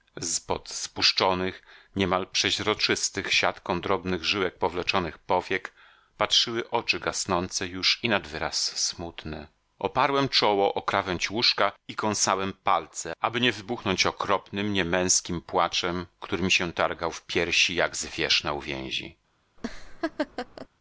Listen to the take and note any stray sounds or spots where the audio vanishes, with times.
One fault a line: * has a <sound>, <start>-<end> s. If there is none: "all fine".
* has a laugh, 19.6-20.7 s